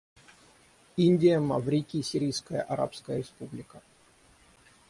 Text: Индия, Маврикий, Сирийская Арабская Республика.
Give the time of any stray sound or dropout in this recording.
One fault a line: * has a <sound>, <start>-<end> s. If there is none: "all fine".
all fine